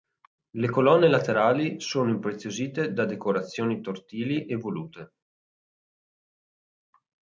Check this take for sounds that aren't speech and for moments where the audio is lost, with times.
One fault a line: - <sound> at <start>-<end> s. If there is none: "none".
none